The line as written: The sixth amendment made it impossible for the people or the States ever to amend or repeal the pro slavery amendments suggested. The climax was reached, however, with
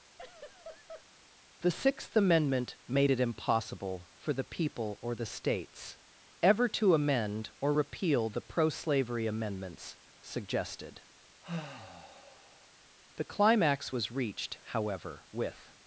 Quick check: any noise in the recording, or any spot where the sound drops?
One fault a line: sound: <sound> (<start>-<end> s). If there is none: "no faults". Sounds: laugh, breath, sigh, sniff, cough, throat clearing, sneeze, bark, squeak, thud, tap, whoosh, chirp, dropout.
sound: laugh (0.2-1.1 s)
sound: sigh (11.4-12.7 s)